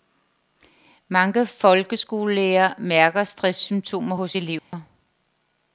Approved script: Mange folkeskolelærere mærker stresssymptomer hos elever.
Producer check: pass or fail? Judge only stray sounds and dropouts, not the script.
fail